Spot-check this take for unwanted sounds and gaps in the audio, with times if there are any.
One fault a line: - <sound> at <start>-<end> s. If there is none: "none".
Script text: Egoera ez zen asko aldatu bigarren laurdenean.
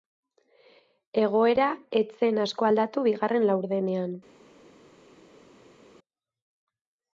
none